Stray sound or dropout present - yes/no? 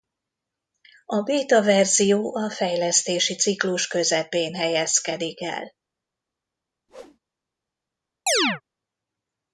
yes